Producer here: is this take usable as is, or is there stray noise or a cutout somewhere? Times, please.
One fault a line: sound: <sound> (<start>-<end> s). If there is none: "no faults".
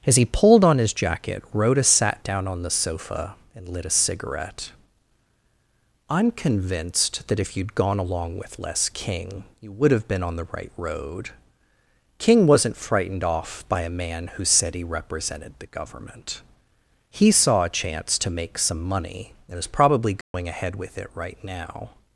sound: dropout (20.2-20.3 s)